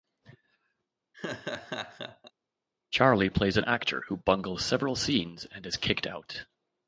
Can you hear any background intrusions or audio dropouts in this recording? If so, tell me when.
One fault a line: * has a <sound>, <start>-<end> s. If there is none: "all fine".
* has a laugh, 1.1-2.3 s